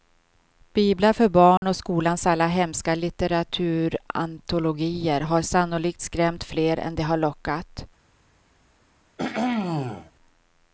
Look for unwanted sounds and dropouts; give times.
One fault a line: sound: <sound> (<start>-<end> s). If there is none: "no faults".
sound: dropout (1.6-1.6 s)
sound: throat clearing (9.2-10.1 s)